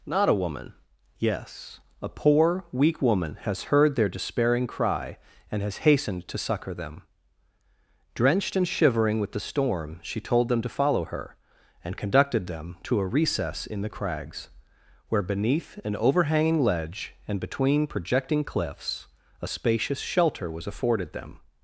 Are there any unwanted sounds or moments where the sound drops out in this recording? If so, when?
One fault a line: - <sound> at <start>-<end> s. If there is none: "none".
none